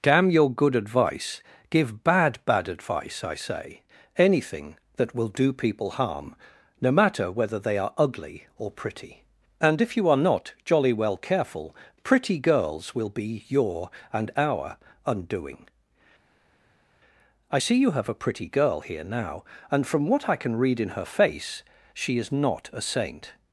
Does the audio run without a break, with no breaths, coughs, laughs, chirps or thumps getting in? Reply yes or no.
yes